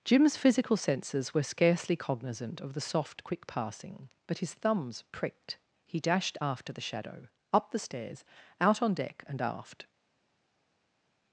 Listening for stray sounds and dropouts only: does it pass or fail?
pass